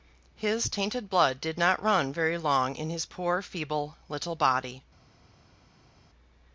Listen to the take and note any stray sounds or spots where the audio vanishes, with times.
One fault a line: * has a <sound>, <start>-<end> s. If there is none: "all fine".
all fine